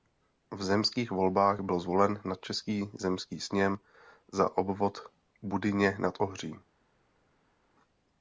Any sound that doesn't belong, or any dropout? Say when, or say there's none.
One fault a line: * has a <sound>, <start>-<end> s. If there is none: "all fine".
all fine